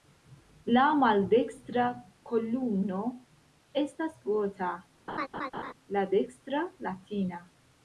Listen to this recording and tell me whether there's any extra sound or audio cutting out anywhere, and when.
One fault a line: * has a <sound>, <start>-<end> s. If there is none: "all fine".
* has a laugh, 5.1-5.7 s